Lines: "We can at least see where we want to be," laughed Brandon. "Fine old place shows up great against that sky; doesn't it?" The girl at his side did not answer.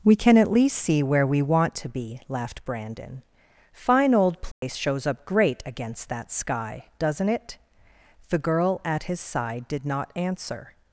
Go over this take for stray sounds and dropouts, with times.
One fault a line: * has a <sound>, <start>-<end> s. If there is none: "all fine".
* has a dropout, 4.5-4.6 s